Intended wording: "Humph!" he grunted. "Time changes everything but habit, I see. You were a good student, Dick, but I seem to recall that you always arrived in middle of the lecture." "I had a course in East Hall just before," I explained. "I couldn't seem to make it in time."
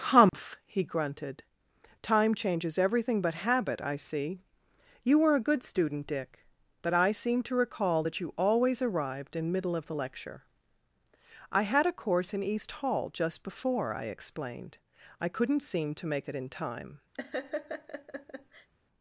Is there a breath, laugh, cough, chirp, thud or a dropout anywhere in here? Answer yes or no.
yes